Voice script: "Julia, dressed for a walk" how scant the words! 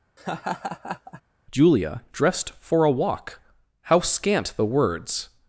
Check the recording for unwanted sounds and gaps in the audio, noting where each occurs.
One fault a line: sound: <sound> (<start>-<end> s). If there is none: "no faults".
sound: laugh (0.2-1.2 s)